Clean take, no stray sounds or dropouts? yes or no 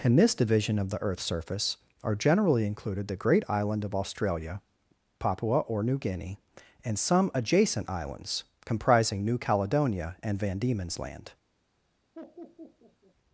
no